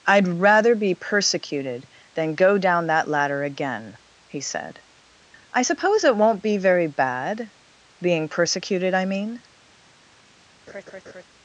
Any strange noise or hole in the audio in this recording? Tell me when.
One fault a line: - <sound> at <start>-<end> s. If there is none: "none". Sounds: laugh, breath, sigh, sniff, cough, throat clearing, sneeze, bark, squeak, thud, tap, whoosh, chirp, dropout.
- laugh at 10.7-11.2 s